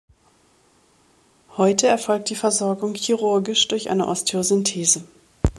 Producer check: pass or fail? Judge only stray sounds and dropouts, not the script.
pass